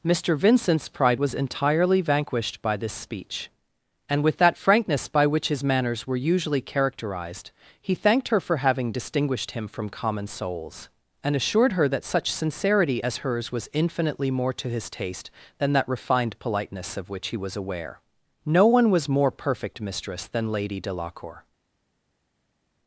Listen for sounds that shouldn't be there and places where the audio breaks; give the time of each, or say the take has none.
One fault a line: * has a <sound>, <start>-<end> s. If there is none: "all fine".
all fine